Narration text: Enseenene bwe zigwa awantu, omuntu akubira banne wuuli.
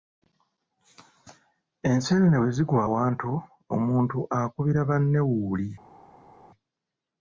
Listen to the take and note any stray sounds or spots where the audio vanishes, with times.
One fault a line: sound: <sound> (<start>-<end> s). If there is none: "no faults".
no faults